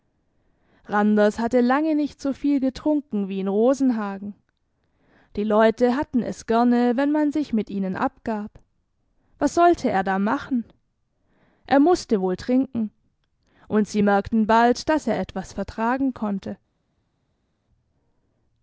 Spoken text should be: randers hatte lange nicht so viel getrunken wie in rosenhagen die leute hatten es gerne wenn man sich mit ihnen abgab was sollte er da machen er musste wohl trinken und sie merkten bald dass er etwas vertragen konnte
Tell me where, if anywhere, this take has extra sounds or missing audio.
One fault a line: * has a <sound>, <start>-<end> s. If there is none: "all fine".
all fine